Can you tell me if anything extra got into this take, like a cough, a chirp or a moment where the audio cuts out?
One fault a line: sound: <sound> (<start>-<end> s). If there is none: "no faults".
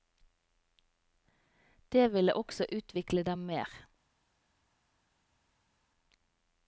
no faults